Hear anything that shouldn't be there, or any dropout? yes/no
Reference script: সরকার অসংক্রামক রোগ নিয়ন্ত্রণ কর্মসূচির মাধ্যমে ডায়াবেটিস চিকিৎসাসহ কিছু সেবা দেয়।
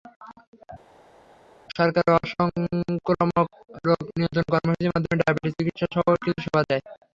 no